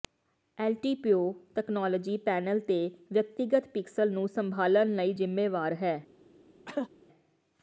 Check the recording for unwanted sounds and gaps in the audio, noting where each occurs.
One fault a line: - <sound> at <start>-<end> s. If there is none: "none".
- cough at 6.7-6.9 s